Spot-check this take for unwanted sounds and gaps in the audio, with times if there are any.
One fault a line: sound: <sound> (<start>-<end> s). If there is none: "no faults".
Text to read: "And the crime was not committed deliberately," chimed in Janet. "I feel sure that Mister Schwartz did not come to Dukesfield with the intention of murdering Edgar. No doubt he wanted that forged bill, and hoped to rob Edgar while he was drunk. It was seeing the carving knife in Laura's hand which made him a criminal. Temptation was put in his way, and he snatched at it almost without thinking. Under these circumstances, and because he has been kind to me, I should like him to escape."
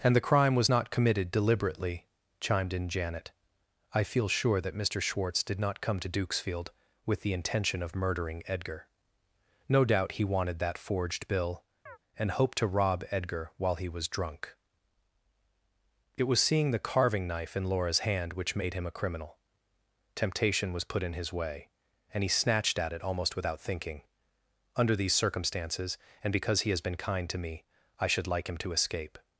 sound: chirp (11.9-12.0 s)